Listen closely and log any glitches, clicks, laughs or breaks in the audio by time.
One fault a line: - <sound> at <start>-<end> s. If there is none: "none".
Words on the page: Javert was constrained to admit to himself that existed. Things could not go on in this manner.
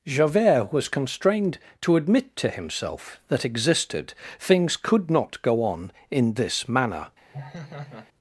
- laugh at 7.3-8.1 s